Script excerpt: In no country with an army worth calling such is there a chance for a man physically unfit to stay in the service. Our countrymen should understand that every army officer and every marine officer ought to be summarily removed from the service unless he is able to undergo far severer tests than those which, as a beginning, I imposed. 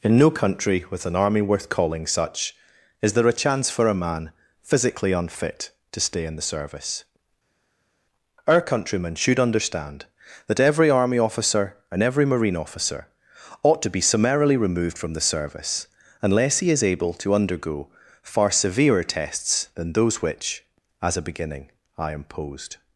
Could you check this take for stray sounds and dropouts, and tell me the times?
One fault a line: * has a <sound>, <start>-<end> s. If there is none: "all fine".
all fine